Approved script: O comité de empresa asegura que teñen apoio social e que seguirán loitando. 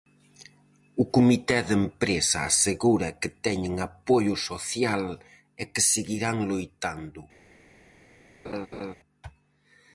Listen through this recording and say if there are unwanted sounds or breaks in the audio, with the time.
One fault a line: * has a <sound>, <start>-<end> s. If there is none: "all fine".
* has a laugh, 8.4-8.9 s